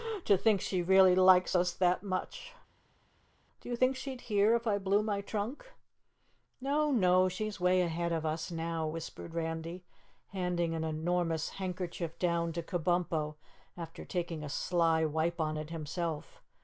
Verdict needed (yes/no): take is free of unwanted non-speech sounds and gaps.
yes